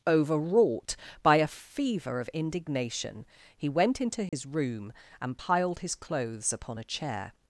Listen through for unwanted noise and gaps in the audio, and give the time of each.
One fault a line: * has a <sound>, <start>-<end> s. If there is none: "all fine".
* has a dropout, 4.3-4.3 s